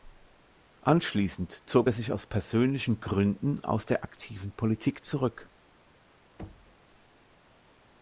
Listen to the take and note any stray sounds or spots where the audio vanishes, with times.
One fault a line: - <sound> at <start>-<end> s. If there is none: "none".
- thud at 6.4-6.8 s